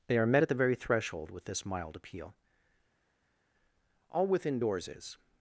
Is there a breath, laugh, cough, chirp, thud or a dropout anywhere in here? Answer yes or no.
no